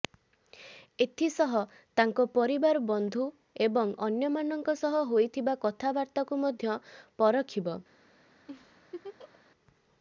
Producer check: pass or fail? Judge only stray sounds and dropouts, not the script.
fail